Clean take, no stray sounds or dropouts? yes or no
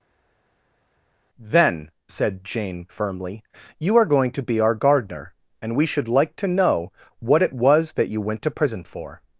yes